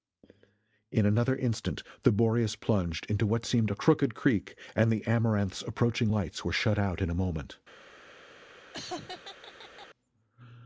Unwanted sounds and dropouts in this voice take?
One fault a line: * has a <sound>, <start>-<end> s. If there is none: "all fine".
* has a laugh, 8.7-9.9 s